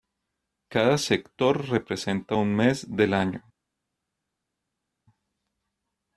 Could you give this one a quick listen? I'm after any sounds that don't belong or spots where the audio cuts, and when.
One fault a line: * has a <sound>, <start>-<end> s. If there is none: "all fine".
all fine